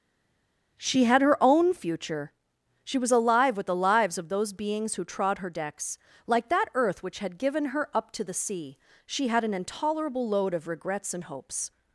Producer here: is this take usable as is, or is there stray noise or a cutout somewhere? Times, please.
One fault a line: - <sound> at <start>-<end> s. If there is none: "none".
none